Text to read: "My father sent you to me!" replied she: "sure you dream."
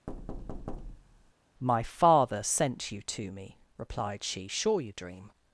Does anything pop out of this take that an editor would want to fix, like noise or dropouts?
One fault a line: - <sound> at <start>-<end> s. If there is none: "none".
- thud at 0.1-1.3 s